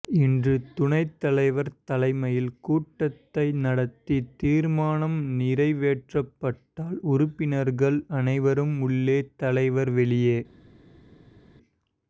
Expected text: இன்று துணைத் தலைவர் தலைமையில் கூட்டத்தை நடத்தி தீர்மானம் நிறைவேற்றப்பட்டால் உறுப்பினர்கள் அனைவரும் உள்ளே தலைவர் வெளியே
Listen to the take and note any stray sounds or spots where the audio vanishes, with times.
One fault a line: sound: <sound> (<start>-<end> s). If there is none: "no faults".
no faults